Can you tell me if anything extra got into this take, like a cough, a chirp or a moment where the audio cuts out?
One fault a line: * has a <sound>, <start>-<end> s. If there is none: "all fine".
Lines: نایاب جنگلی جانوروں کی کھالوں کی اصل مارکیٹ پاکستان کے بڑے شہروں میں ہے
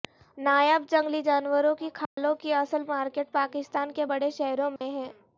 * has a dropout, 2.1-2.2 s
* has a dropout, 4.8-4.8 s